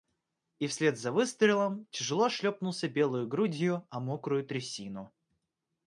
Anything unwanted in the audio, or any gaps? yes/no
no